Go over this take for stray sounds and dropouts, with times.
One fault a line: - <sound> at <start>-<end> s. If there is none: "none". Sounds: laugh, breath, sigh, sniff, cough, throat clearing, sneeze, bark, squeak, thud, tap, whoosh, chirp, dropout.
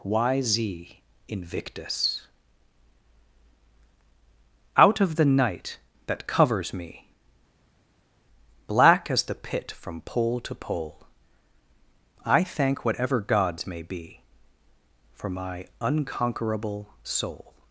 none